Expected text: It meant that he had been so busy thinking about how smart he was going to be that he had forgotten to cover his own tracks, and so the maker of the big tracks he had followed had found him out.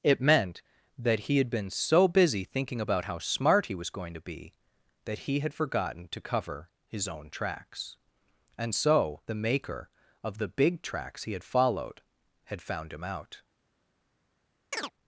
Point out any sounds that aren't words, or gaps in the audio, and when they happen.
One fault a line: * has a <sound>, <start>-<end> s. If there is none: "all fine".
* has a chirp, 14.7-14.9 s